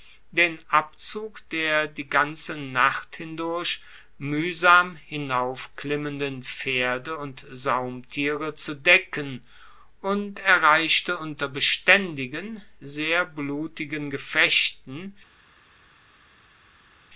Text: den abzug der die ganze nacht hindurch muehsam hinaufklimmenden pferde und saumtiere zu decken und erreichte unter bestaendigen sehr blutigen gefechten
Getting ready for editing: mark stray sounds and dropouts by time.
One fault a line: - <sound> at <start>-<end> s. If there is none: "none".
none